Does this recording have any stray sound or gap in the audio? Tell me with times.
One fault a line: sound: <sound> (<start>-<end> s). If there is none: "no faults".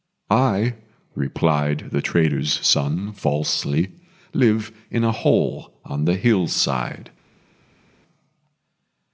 no faults